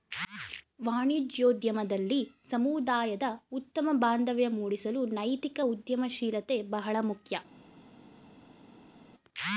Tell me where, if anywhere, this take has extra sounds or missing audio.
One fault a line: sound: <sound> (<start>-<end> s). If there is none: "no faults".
no faults